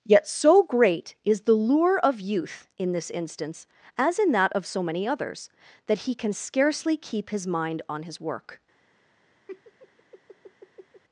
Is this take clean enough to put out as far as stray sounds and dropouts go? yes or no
no